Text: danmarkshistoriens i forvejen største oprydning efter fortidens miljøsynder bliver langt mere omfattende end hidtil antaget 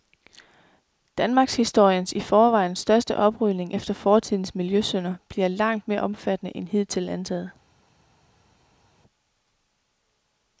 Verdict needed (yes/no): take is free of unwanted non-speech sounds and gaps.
yes